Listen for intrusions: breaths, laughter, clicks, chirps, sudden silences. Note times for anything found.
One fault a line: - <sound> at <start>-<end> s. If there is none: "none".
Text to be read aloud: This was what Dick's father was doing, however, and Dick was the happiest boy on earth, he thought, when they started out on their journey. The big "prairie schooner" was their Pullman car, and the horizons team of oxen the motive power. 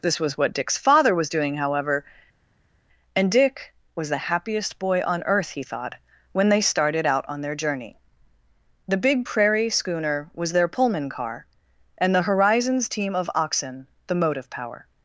none